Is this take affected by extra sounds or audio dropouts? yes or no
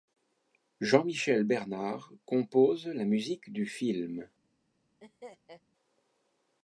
yes